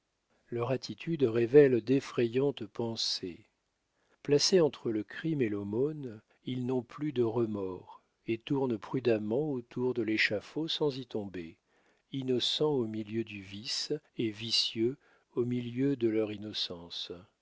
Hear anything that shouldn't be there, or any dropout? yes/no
no